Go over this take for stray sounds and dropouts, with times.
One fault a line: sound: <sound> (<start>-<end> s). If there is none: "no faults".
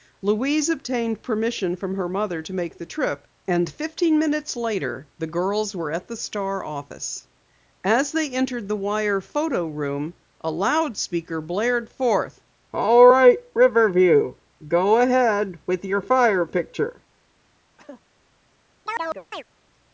sound: cough (17.8-18.0 s)
sound: chirp (18.9-19.4 s)